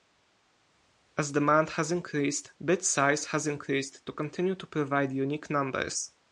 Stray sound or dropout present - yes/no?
no